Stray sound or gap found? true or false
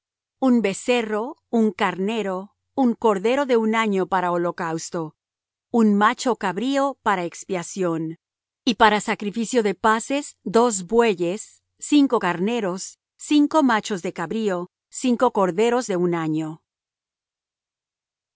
false